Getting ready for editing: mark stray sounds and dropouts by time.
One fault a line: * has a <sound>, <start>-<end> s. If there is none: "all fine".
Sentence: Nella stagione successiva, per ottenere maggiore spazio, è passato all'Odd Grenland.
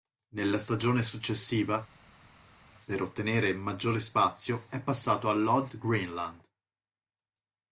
all fine